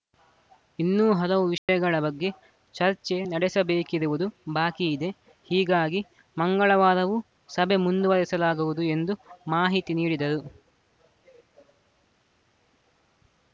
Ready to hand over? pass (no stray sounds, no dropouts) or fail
fail